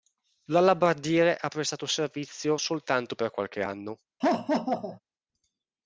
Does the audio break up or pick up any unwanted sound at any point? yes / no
yes